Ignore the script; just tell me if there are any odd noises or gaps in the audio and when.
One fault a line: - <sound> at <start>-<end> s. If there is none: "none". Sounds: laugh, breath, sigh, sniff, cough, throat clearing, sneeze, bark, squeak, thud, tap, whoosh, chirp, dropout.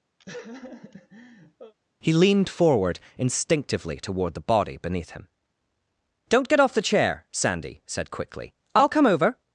- laugh at 0.2-1.7 s